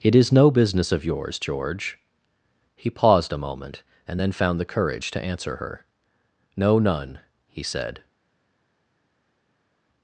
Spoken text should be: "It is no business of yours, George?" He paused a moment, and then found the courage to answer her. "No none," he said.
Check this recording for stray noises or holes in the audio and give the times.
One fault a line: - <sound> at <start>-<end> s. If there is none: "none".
none